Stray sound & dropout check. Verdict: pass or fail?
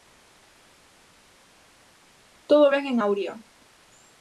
pass